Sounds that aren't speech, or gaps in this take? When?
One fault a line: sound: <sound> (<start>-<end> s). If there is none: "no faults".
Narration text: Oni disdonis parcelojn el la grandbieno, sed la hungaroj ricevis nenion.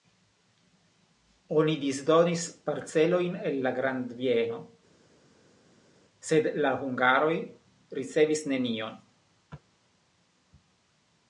no faults